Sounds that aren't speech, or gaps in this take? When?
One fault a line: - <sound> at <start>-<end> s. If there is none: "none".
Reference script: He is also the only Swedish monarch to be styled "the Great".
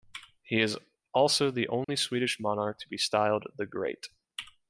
- dropout at 1.8-1.9 s